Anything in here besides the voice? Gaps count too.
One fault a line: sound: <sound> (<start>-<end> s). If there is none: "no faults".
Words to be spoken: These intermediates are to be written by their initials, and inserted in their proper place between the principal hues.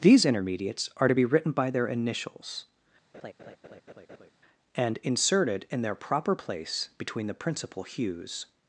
sound: laugh (3.1-4.3 s)